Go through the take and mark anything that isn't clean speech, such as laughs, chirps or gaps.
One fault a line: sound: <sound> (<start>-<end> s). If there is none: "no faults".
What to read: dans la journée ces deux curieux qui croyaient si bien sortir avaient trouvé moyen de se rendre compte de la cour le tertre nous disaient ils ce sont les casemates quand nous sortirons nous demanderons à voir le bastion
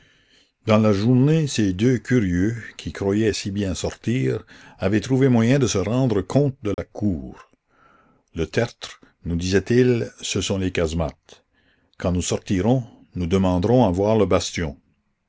sound: dropout (6.7-6.8 s)